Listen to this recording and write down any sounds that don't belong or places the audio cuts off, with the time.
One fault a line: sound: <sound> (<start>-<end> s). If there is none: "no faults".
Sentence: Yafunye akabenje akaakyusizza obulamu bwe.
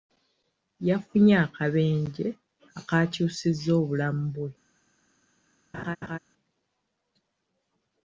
sound: laugh (5.7-6.2 s)